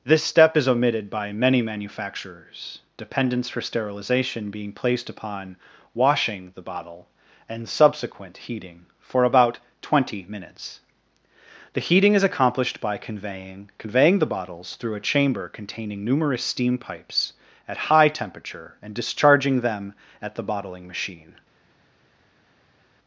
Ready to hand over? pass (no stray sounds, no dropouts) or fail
pass